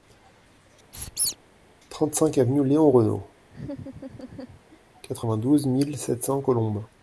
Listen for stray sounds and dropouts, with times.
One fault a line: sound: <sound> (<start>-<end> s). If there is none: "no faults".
sound: squeak (0.9-1.4 s)
sound: laugh (3.5-4.8 s)